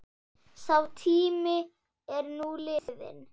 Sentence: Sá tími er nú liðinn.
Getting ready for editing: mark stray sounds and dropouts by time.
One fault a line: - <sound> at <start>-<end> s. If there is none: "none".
- dropout at 2.8-2.9 s